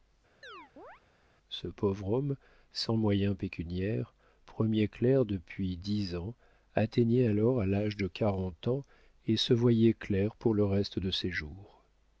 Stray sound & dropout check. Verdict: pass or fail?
fail